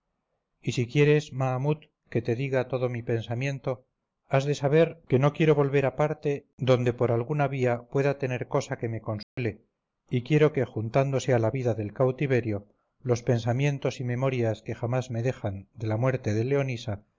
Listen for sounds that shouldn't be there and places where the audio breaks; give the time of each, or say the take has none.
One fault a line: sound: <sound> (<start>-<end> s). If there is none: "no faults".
sound: dropout (9.2-9.4 s)